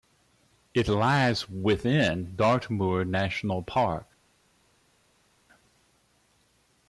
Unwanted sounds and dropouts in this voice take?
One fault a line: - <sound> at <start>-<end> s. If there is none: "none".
none